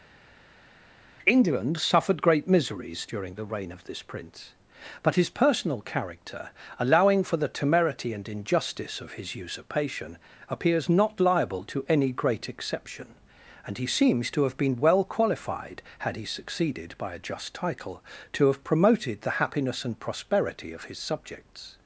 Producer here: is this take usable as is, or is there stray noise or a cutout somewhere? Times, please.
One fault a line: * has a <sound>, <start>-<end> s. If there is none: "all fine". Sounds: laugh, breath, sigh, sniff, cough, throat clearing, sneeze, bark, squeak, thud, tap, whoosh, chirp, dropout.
all fine